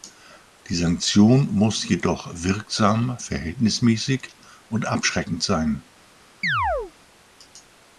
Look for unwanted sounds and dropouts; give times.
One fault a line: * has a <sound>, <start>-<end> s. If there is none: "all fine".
* has a chirp, 6.4-6.9 s